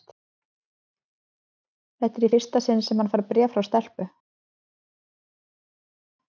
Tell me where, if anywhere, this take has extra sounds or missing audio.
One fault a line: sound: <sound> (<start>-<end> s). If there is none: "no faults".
no faults